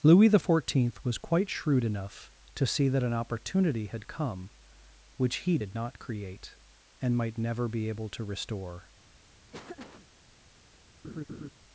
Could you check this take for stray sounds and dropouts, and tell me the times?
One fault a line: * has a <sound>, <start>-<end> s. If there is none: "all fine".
* has a laugh, 9.5-10.1 s
* has a laugh, 11.0-11.5 s